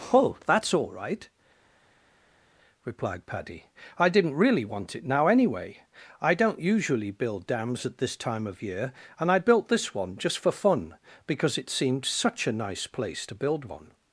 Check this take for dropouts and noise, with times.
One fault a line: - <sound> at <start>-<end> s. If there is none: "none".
none